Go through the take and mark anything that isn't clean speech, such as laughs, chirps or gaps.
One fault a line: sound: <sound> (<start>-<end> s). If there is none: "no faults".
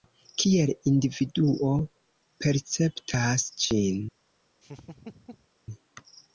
sound: laugh (4.6-5.5 s)